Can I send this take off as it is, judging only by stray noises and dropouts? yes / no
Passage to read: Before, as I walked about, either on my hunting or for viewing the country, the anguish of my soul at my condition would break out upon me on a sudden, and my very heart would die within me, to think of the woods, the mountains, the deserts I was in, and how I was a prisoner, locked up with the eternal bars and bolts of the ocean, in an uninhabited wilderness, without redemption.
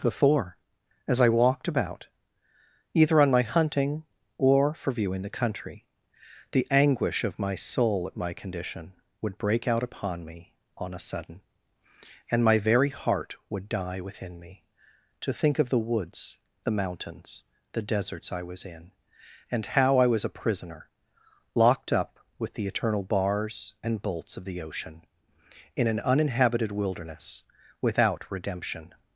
yes